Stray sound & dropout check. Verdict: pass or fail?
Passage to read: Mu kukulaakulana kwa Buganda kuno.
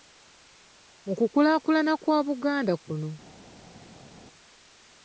pass